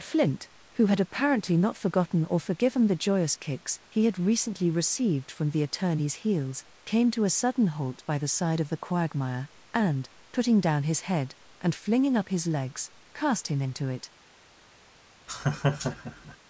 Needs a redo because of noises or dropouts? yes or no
yes